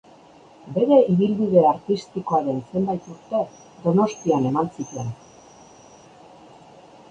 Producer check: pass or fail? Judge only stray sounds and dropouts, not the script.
pass